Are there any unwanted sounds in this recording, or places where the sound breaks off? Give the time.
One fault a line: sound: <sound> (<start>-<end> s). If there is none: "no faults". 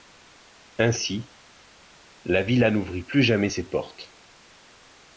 no faults